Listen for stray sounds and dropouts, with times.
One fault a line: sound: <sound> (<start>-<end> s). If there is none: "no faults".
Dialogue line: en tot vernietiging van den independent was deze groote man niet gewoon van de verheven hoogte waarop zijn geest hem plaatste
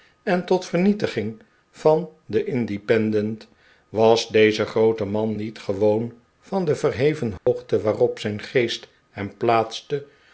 sound: dropout (7.4-7.5 s)